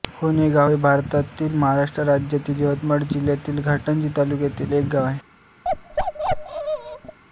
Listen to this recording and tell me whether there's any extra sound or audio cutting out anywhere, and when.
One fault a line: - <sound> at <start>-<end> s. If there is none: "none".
- bark at 5.6-7.2 s